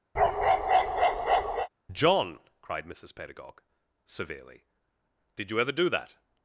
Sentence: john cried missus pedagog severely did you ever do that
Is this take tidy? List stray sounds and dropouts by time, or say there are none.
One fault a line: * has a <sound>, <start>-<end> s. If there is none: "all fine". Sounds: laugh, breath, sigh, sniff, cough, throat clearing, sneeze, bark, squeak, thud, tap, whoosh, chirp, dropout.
* has a bark, 0.1-1.7 s